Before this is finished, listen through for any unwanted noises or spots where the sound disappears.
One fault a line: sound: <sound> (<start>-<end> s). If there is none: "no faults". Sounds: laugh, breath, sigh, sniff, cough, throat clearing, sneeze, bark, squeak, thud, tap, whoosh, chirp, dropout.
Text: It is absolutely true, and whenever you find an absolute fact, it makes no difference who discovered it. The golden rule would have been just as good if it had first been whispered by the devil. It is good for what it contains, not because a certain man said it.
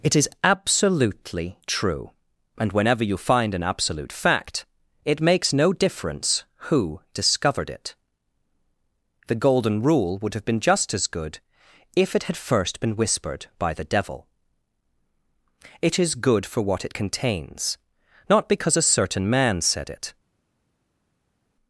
no faults